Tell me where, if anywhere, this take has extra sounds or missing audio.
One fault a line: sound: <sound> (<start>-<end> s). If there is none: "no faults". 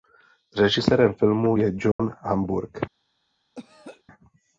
sound: dropout (1.9-2.0 s)
sound: throat clearing (3.5-4.0 s)